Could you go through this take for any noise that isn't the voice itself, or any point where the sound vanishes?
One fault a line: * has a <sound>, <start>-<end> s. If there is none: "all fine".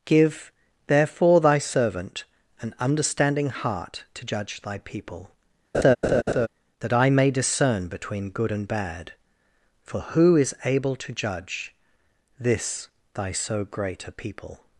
* has a laugh, 5.7-6.5 s